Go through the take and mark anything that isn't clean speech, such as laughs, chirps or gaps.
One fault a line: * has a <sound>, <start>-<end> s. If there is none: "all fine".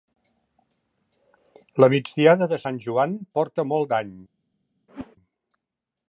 * has a whoosh, 4.9-5.2 s